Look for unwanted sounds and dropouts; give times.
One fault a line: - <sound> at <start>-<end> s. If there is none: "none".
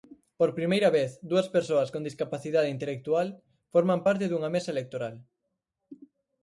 none